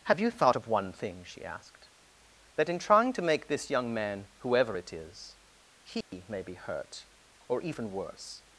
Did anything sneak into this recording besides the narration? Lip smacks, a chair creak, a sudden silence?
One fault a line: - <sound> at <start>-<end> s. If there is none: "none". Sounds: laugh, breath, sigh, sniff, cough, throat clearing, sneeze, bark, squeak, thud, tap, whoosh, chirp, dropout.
- dropout at 6.0-6.1 s